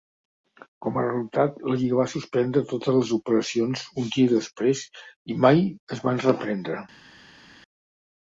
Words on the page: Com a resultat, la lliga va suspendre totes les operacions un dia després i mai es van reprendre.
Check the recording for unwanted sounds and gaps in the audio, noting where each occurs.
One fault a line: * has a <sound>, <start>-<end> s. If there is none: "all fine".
all fine